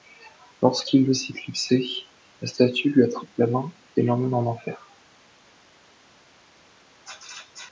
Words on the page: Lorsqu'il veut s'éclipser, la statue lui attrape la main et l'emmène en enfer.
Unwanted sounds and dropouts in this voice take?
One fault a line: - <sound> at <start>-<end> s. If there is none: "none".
none